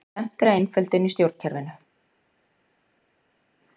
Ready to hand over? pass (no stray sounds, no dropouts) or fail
pass